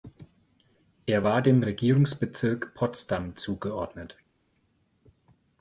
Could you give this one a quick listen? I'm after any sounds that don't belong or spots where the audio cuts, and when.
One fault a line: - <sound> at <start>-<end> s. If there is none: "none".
none